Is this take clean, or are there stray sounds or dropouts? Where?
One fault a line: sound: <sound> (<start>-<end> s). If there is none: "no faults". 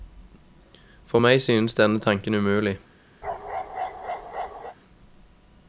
sound: bark (3.2-4.8 s)